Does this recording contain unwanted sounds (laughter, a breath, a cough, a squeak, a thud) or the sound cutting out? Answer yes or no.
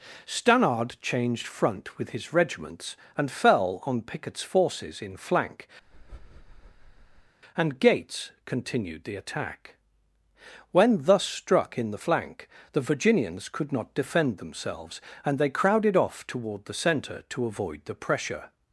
yes